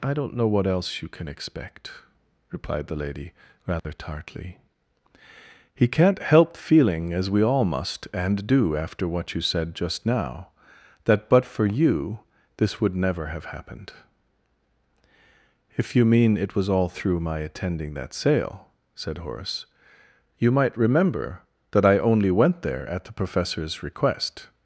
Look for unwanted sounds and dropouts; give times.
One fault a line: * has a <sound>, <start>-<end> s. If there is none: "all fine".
* has a dropout, 3.8-3.8 s